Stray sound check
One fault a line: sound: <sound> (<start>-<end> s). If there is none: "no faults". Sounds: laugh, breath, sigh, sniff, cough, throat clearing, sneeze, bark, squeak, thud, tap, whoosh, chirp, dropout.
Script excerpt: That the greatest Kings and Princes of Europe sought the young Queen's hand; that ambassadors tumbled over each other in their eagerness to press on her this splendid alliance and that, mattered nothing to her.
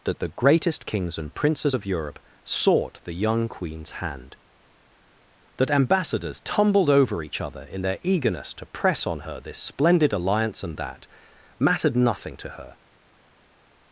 no faults